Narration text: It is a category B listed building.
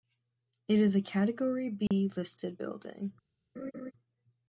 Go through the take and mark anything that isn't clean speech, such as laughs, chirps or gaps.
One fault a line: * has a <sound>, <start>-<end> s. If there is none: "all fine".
* has a dropout, 1.9-1.9 s
* has a laugh, 3.6-3.9 s